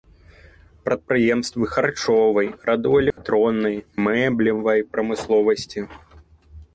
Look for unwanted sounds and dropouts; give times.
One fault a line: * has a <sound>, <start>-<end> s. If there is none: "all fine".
* has a dropout, 3.1-3.2 s